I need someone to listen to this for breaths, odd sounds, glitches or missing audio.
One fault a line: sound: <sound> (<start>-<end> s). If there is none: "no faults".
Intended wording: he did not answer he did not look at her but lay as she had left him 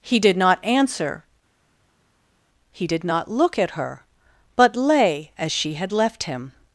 no faults